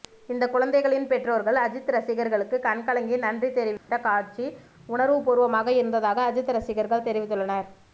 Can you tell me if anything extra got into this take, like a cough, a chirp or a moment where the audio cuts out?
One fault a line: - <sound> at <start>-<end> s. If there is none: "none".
- dropout at 3.8-3.9 s